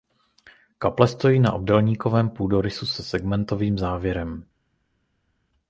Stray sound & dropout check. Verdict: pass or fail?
pass